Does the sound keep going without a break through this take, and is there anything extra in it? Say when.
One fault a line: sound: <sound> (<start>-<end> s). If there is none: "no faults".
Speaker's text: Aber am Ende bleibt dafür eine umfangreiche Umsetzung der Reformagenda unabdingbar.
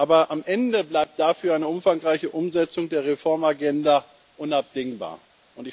no faults